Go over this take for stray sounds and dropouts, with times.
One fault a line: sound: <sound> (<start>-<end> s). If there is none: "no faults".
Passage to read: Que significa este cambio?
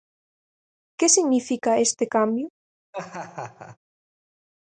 sound: laugh (2.9-3.8 s)